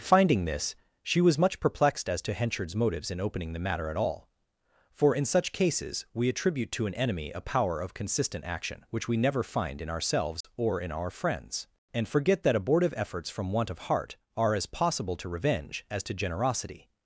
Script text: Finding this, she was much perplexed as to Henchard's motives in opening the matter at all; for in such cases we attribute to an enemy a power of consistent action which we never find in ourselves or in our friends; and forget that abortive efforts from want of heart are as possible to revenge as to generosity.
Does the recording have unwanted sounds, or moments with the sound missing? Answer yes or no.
yes